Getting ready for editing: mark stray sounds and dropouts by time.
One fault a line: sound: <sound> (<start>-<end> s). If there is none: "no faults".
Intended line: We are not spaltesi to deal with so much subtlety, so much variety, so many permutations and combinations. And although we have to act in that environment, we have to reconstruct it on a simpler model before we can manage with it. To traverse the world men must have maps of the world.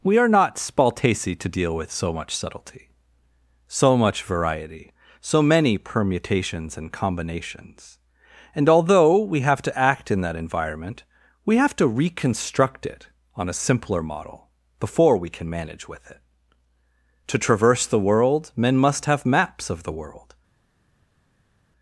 no faults